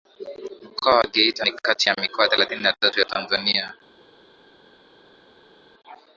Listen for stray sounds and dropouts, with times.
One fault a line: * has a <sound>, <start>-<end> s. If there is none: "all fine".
all fine